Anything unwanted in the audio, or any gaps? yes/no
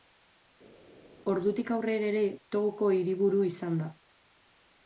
no